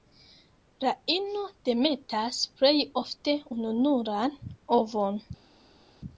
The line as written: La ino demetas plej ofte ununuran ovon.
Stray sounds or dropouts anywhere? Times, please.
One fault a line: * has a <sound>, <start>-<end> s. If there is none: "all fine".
all fine